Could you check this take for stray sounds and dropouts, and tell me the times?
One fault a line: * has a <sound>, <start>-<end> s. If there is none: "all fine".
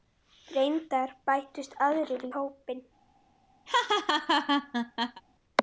* has a laugh, 3.7-5.2 s